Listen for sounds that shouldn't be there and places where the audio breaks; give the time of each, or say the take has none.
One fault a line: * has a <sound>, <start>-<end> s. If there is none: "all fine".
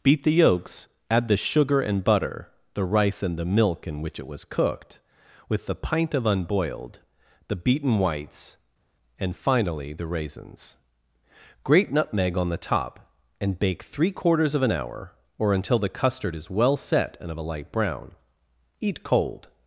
all fine